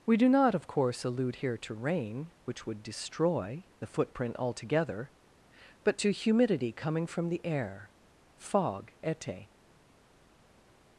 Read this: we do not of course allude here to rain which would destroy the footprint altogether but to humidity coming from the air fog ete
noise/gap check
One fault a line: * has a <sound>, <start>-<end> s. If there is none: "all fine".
all fine